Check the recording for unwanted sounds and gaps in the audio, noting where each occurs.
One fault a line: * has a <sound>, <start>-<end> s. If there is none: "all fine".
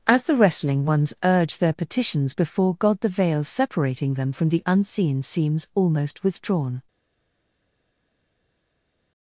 all fine